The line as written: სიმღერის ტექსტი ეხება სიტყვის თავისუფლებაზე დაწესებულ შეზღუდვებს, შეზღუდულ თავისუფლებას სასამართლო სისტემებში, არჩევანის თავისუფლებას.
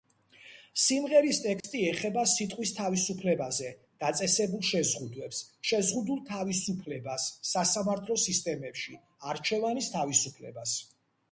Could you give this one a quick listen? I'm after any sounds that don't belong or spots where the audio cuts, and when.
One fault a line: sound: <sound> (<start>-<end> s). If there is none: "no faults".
sound: dropout (1.6-1.6 s)